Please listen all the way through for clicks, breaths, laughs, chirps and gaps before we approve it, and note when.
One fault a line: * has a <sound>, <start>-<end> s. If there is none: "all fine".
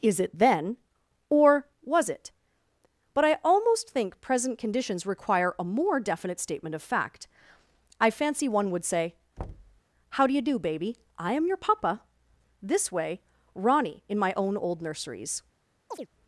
* has a thud, 9.4-9.8 s
* has a chirp, 15.9-16.1 s